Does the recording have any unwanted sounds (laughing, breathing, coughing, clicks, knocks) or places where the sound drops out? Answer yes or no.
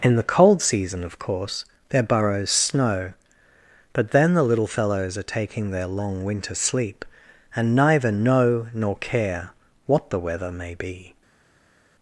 no